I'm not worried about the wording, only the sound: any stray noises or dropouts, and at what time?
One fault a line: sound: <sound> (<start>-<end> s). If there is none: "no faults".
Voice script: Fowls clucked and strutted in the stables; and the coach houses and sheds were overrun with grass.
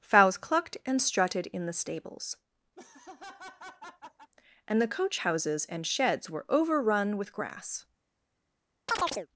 sound: laugh (2.7-4.3 s)
sound: chirp (8.9-9.3 s)